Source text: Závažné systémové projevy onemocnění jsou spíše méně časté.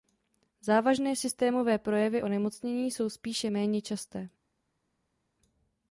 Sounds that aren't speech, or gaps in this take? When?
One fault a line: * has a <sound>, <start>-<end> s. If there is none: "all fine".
all fine